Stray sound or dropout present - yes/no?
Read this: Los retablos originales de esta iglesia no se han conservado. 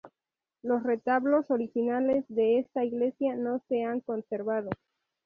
no